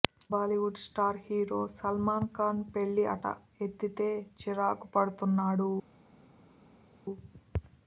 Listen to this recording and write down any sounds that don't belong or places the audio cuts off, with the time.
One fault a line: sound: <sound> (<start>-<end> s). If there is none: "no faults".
no faults